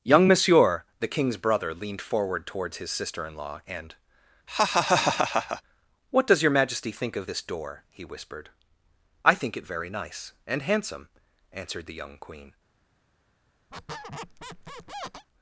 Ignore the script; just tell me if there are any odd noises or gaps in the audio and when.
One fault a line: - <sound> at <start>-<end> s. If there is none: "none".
- laugh at 4.5-5.6 s
- squeak at 13.7-15.3 s